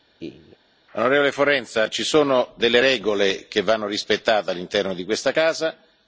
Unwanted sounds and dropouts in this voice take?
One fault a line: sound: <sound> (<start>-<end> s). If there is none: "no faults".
sound: laugh (0.2-0.6 s)